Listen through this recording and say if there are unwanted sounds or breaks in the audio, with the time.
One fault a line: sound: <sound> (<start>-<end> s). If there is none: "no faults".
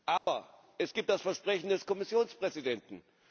sound: dropout (0.2-0.3 s)